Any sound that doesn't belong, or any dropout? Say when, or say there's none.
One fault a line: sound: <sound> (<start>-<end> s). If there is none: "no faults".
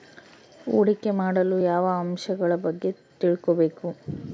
no faults